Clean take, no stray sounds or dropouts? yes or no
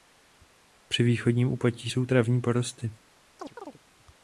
no